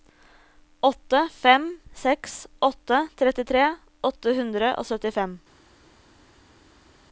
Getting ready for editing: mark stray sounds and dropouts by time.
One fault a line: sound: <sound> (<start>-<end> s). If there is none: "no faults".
no faults